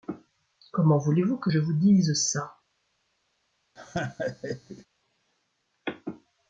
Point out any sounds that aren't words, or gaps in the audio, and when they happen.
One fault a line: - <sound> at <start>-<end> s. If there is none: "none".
- laugh at 3.8-4.9 s